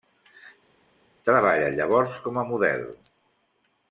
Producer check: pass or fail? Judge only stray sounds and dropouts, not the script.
pass